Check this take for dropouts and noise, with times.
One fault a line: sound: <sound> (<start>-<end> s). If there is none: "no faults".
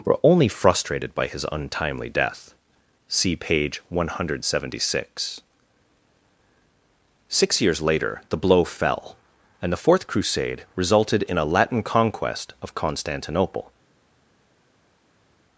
no faults